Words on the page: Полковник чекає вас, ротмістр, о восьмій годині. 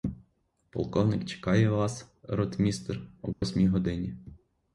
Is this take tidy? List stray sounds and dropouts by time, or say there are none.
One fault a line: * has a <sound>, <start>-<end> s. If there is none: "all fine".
* has a dropout, 3.3-3.4 s